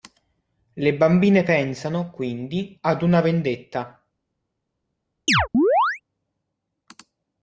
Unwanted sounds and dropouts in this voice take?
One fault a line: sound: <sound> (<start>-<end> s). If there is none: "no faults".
sound: chirp (5.3-6.0 s)